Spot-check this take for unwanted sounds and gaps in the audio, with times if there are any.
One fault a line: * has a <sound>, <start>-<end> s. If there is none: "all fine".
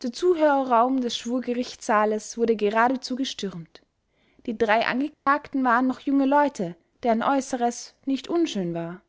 * has a dropout, 5.1-5.3 s